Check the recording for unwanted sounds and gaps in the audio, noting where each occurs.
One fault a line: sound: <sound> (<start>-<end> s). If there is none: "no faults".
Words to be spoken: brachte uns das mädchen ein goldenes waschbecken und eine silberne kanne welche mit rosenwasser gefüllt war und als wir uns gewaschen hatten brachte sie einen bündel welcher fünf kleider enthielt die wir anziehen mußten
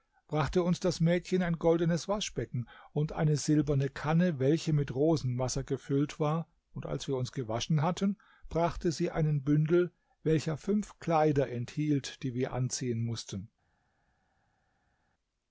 no faults